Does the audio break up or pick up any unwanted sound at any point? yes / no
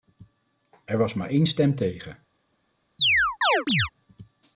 yes